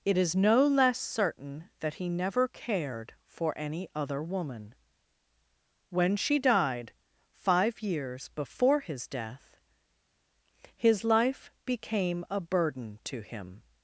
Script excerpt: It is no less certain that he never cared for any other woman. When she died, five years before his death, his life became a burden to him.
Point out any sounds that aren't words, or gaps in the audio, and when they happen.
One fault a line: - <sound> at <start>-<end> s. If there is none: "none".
none